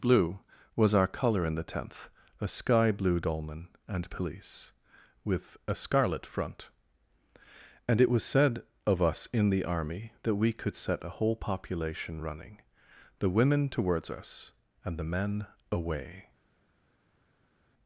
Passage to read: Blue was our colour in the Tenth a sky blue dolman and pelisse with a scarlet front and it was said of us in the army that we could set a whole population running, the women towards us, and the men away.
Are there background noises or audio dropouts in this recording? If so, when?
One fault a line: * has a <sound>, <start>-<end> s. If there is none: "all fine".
all fine